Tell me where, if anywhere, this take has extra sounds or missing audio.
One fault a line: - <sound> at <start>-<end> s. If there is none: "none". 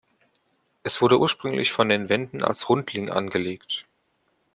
none